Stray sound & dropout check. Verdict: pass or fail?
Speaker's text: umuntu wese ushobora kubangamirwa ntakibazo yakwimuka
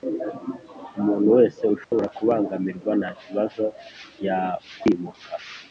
fail